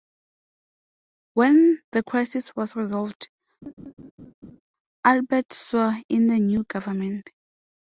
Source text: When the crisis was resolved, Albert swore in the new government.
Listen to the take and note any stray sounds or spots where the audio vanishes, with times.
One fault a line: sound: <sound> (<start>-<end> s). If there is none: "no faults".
sound: laugh (3.6-4.6 s)